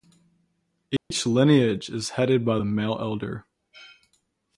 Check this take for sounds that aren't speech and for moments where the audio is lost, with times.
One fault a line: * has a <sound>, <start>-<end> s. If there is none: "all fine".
* has a dropout, 1.0-1.1 s